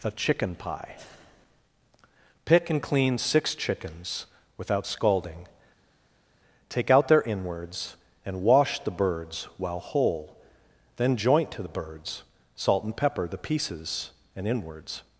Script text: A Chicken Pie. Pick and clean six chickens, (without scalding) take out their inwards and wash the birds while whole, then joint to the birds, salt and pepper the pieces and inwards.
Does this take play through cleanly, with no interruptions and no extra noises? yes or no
yes